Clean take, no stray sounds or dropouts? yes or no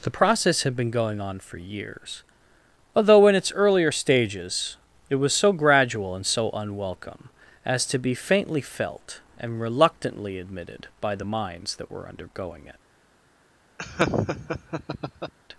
no